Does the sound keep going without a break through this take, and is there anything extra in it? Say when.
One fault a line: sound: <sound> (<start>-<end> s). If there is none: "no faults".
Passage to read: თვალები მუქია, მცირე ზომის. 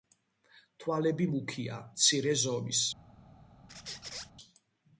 sound: squeak (3.7-4.3 s)